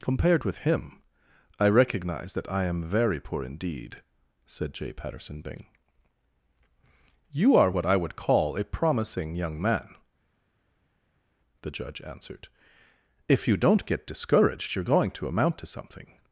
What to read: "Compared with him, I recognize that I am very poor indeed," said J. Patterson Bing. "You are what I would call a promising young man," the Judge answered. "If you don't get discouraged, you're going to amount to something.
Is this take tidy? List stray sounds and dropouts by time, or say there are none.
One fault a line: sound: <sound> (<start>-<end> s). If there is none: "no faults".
no faults